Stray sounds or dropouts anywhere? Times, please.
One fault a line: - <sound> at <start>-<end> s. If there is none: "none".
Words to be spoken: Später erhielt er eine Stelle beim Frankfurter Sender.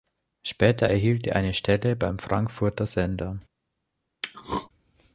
- throat clearing at 4.2-4.7 s